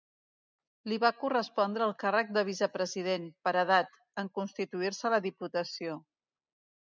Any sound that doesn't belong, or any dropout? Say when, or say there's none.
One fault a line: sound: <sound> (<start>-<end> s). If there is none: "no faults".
no faults